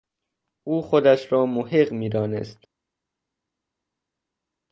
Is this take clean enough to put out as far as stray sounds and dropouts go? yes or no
yes